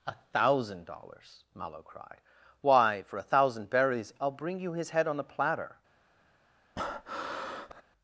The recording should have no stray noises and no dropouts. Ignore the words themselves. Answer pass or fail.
fail